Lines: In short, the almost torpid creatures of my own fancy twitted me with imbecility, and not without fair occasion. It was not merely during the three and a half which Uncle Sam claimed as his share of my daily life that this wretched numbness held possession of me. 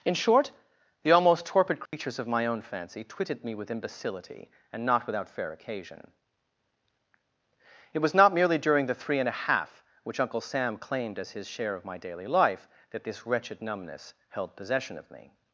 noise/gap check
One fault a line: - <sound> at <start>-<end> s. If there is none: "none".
- dropout at 1.9-1.9 s